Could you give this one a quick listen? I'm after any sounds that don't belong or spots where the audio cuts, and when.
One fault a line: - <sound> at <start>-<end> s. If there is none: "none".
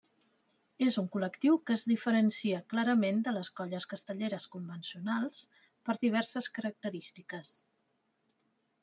none